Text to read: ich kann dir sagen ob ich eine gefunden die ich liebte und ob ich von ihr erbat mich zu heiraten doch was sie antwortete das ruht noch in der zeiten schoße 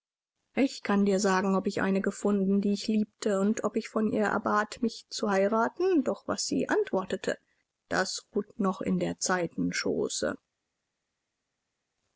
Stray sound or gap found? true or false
false